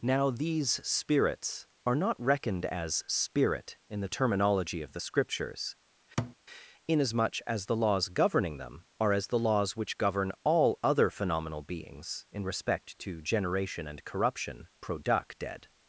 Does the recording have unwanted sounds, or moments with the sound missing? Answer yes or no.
yes